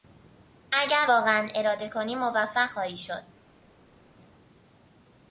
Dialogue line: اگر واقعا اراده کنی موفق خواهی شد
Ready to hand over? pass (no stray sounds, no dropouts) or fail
pass